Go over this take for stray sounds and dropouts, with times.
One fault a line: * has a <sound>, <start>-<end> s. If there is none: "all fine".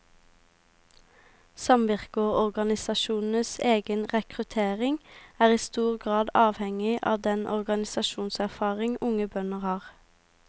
all fine